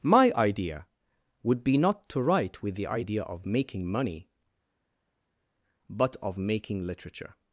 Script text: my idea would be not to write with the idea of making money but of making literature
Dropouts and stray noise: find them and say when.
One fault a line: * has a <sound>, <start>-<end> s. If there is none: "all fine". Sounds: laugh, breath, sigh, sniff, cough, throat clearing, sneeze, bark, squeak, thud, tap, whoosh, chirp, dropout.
all fine